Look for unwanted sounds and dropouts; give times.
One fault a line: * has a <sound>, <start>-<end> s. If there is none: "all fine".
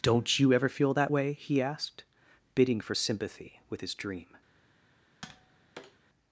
* has a tap, 5.2-6.0 s